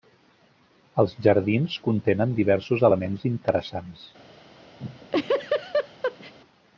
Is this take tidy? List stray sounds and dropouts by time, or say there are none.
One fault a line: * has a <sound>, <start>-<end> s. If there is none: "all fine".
* has a laugh, 4.8-6.3 s